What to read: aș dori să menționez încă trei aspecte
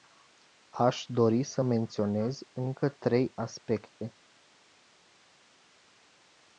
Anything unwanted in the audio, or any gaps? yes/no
no